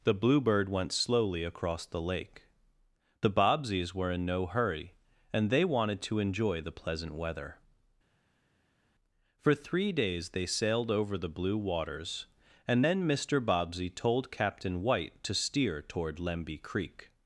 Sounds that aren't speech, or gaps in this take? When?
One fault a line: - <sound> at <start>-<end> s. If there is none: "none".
none